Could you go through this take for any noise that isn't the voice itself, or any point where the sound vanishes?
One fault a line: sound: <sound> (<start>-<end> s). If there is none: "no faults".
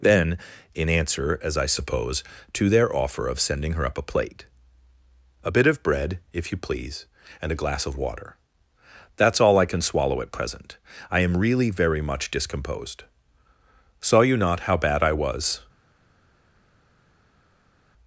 no faults